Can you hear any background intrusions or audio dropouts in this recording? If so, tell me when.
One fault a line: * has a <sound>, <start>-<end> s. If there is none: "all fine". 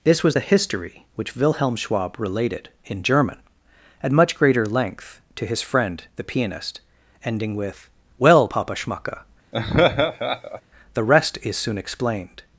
* has a laugh, 9.5-10.6 s